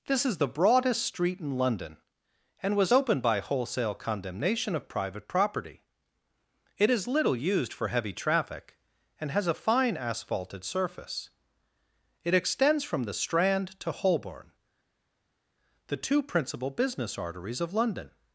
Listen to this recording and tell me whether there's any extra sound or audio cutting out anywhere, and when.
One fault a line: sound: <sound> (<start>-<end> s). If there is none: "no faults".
no faults